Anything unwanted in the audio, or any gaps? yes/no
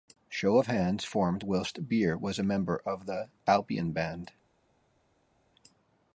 no